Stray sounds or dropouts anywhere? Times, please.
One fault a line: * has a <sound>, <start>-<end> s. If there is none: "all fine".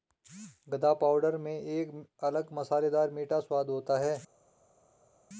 all fine